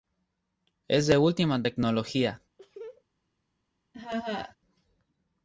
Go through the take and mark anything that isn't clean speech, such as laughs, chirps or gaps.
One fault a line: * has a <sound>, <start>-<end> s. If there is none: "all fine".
* has a laugh, 2.6-3.0 s
* has a laugh, 3.9-4.6 s